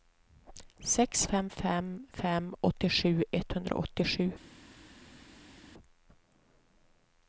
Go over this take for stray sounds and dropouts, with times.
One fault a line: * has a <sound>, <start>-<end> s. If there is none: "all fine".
all fine